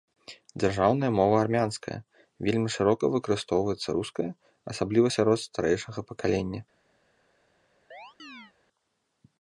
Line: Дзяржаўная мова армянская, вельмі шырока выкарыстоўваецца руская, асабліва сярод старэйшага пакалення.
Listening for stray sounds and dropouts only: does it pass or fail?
fail